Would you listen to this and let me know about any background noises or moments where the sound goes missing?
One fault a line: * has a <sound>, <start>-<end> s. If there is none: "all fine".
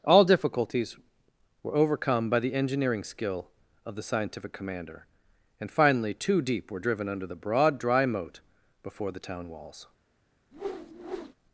* has a whoosh, 10.5-11.3 s